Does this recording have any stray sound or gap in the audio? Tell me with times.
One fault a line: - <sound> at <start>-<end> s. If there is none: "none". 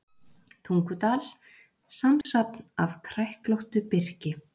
- dropout at 2.2-2.3 s